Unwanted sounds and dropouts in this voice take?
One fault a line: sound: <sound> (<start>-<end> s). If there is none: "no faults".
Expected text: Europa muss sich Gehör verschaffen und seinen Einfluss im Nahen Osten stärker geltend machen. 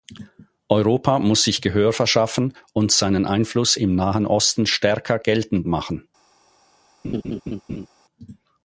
sound: laugh (7.0-7.9 s)